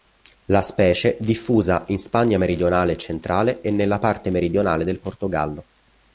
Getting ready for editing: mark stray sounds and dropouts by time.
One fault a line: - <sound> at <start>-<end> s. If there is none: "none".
none